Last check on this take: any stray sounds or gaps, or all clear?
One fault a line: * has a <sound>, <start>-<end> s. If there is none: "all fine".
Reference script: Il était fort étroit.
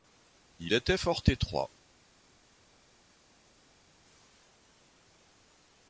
all fine